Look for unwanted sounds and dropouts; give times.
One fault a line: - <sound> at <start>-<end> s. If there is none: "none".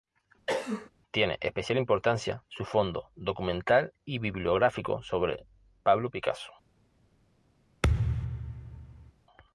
- cough at 0.5-0.9 s
- thud at 7.8-9.1 s